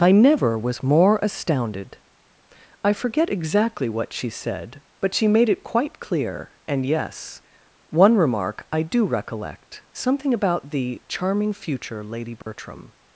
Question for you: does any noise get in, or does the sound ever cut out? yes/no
yes